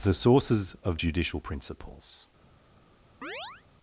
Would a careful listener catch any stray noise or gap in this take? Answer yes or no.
yes